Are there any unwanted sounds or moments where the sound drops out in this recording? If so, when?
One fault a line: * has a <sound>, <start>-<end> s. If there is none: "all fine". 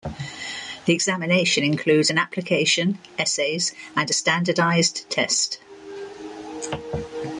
all fine